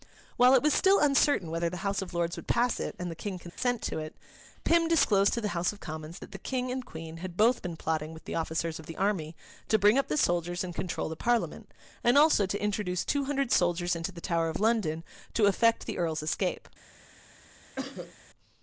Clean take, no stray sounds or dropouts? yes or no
no